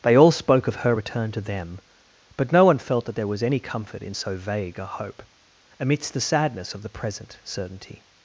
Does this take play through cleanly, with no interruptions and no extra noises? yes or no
yes